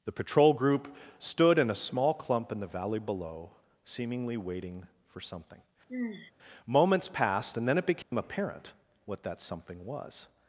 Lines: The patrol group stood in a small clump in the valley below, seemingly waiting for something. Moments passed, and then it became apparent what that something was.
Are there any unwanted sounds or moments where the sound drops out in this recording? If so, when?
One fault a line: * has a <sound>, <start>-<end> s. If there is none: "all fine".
* has a sigh, 5.9-6.3 s
* has a dropout, 8.0-8.1 s